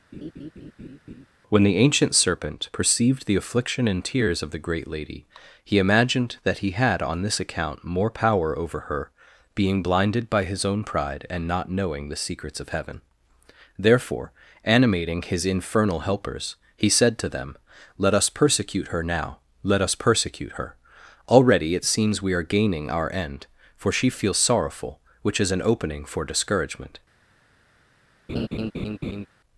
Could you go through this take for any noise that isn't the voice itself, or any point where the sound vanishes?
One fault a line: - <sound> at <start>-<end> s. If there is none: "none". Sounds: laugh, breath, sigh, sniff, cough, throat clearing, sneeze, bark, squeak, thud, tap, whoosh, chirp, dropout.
- laugh at 0.1-1.3 s
- laugh at 28.3-29.3 s